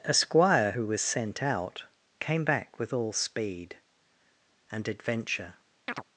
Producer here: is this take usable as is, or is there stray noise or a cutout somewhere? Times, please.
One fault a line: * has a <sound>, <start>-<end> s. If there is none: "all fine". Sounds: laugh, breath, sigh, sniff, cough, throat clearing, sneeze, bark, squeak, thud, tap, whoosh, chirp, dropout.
* has a chirp, 5.9-6.0 s